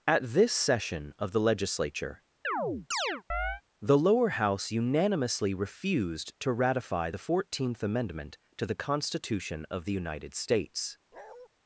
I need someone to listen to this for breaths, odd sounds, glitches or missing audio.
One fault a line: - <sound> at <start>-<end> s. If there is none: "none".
- chirp at 2.4-3.6 s
- bark at 11.1-11.5 s